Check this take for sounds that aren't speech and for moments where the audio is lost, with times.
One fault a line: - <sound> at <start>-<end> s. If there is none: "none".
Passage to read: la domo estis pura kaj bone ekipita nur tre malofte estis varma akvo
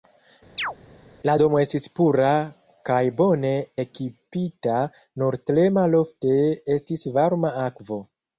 - chirp at 0.6-0.7 s